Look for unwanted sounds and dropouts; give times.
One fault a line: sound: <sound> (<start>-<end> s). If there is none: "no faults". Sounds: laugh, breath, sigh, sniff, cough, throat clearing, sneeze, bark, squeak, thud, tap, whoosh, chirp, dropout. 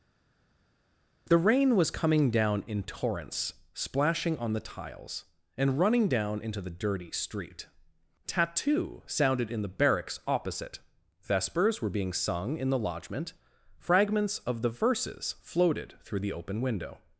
no faults